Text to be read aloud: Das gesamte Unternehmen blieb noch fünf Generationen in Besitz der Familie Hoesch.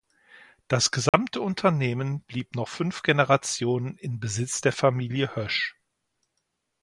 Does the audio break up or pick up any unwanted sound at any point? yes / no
yes